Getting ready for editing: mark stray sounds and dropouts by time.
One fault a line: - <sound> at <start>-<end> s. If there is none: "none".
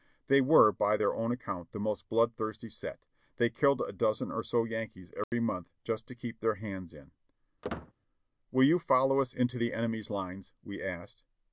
- dropout at 5.2-5.3 s
- squeak at 7.6-7.9 s